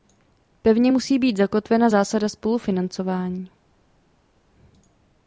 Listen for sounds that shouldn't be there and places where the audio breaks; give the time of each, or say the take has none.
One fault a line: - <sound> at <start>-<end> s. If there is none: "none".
none